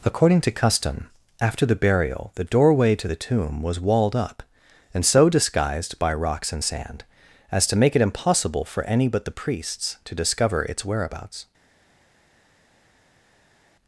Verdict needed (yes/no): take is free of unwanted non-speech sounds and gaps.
yes